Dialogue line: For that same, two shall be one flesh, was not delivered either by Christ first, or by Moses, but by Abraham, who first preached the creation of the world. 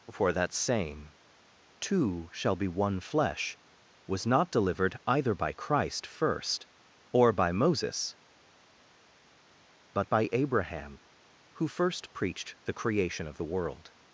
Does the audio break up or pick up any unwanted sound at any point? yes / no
no